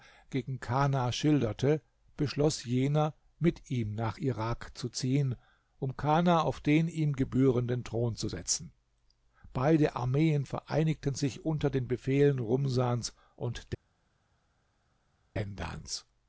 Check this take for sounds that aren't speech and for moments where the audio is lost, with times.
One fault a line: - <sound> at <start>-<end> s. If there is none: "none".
none